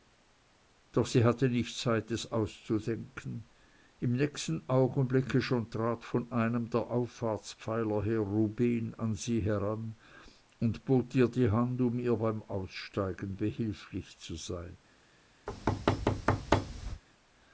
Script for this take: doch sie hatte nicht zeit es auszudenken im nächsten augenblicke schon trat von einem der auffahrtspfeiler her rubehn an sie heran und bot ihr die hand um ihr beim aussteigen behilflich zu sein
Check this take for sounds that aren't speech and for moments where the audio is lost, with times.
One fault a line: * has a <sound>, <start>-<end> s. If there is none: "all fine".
* has a thud, 15.5-17.0 s